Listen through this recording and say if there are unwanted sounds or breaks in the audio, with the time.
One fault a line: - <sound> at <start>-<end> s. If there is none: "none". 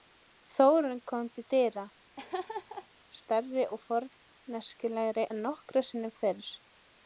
- laugh at 2.2-2.9 s